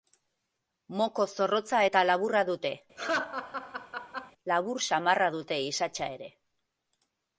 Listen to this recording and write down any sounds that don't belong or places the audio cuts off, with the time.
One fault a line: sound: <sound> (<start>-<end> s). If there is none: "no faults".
sound: laugh (3.0-4.3 s)